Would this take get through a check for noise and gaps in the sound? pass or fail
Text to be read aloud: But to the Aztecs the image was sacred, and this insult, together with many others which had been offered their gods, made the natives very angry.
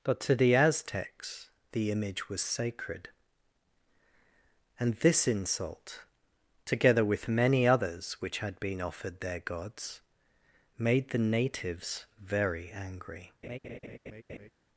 fail